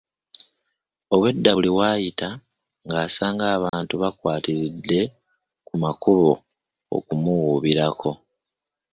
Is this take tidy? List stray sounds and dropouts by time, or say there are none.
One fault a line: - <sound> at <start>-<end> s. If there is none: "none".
- dropout at 3.7-3.7 s